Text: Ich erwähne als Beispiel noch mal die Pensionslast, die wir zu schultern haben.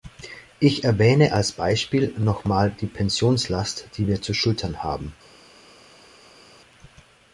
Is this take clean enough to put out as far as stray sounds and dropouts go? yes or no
yes